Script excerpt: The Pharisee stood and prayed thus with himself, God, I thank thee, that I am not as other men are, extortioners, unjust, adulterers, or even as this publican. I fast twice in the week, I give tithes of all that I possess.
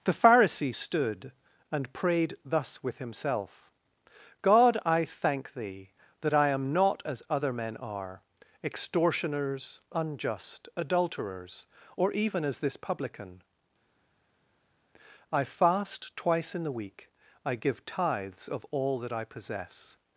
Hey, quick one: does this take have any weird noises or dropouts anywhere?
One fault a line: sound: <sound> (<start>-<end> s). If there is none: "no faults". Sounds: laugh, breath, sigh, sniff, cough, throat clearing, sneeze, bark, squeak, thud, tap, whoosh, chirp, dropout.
no faults